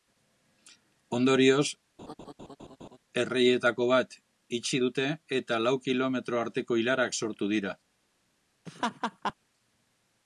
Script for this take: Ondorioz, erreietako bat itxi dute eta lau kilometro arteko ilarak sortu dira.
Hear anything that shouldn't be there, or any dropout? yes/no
yes